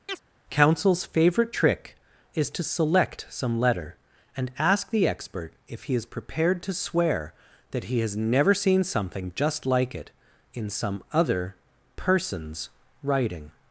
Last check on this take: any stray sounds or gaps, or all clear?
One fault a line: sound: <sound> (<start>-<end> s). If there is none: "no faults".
sound: chirp (0.1-0.2 s)